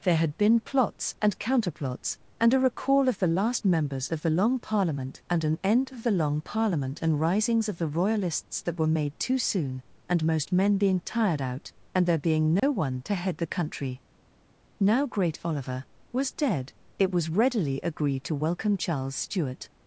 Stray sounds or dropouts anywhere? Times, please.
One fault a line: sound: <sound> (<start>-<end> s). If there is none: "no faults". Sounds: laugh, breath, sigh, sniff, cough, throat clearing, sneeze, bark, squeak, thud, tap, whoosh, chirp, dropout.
sound: dropout (12.6-12.6 s)